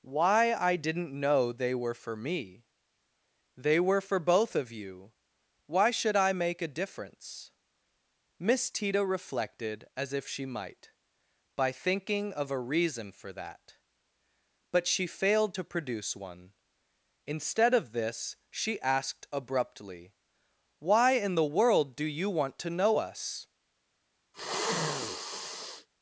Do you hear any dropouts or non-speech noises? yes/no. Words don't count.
yes